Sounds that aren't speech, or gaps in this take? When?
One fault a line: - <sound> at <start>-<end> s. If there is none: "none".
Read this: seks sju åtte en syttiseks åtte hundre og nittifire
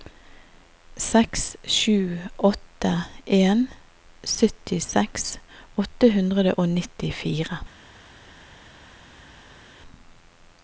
none